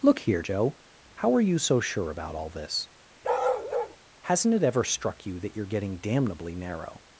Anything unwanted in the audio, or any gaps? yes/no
yes